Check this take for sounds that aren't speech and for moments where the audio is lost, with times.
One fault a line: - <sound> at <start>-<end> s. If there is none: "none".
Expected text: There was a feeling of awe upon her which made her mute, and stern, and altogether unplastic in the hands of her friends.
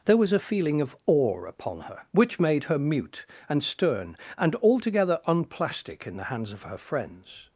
none